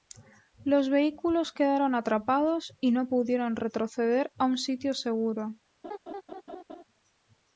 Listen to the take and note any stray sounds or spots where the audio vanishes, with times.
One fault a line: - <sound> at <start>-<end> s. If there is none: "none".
- laugh at 5.8-6.8 s